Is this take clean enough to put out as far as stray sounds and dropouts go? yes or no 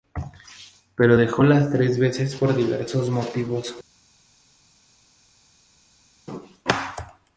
yes